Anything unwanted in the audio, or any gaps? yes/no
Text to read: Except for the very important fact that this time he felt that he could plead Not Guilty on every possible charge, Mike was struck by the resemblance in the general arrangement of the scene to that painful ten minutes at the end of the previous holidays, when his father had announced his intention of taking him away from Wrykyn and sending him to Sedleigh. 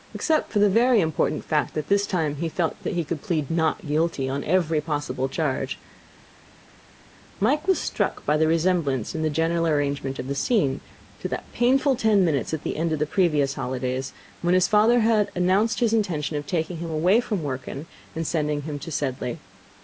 no